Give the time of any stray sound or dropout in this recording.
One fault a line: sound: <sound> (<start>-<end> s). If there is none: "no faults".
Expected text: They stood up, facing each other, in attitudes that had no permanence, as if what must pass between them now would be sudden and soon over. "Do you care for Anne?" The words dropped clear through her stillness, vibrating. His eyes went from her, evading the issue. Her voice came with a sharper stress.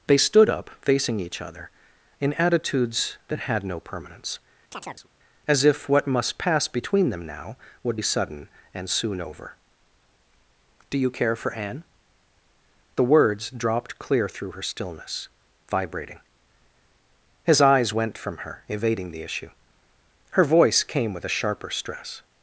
sound: chirp (4.7-5.1 s)